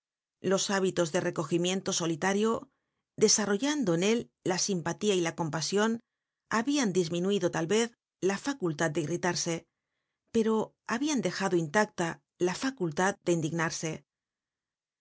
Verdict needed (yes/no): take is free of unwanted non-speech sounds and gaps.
yes